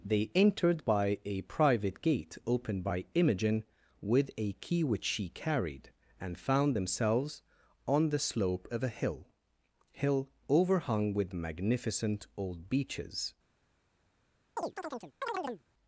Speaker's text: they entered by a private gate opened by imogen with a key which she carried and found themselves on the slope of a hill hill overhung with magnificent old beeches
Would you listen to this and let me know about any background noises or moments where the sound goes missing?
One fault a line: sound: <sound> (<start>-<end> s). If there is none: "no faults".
sound: chirp (14.6-15.6 s)